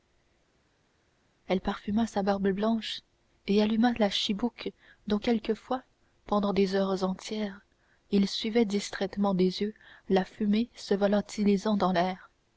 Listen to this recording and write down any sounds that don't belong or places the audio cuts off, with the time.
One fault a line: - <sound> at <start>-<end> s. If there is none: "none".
none